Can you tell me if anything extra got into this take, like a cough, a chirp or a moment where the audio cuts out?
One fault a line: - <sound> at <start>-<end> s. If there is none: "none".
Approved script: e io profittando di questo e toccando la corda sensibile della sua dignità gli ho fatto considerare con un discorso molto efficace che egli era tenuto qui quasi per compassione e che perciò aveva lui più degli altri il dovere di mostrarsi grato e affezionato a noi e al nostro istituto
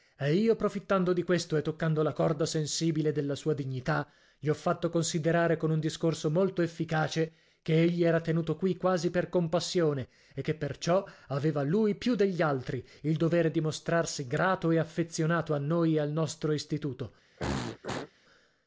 - throat clearing at 17.4-18.1 s